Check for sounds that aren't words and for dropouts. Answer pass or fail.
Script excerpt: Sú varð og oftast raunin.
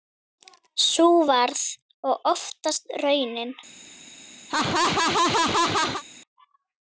fail